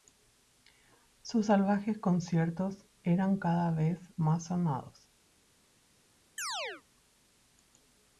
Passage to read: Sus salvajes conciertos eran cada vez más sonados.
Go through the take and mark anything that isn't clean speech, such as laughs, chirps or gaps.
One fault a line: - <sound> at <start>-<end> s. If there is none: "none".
- chirp at 6.4-6.8 s